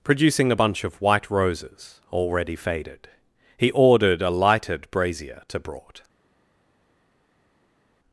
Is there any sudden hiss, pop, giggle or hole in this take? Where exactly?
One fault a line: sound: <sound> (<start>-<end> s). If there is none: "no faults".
no faults